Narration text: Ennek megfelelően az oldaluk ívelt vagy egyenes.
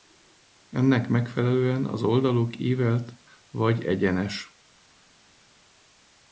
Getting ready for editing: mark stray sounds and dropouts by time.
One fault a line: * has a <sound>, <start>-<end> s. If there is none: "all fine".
all fine